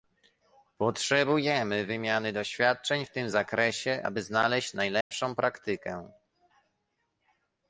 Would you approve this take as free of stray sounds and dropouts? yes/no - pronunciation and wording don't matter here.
no